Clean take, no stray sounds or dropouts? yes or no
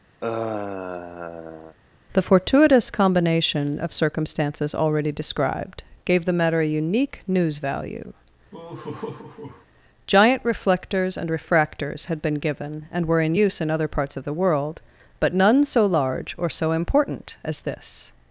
no